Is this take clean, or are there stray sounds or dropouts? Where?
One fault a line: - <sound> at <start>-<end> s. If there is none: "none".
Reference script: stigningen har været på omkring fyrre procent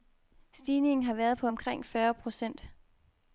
none